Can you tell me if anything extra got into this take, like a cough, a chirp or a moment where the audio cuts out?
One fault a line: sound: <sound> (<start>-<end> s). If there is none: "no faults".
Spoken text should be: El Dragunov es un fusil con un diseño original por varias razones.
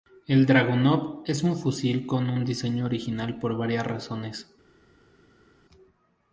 no faults